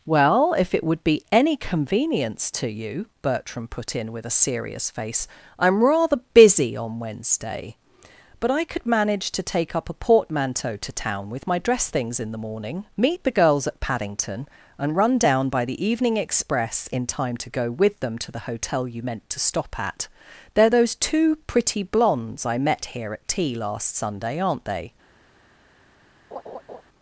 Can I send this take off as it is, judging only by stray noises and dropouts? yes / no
no